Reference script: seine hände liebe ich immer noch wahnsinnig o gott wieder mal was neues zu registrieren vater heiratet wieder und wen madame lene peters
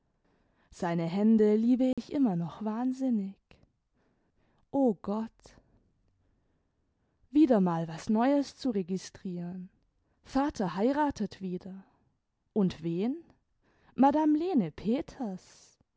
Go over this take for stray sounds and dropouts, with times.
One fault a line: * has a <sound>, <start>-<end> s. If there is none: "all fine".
* has a dropout, 1.9-2.0 s